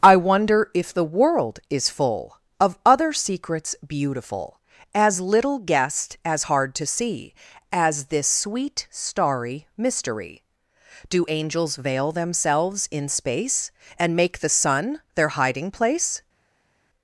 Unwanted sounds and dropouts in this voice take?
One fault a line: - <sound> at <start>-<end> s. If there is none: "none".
none